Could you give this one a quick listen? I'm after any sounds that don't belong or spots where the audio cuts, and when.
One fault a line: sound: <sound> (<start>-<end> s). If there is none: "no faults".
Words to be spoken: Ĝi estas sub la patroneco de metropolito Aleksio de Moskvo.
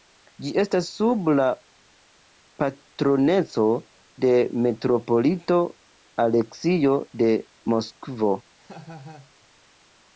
sound: laugh (8.6-9.3 s)